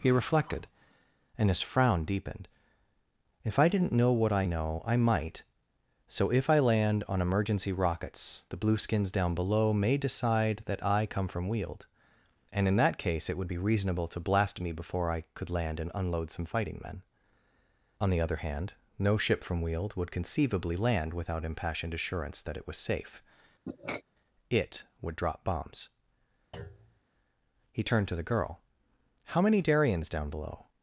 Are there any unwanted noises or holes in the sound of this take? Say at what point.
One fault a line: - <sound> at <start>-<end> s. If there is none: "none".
- sniff at 23.7-24.0 s
- thud at 26.5-27.0 s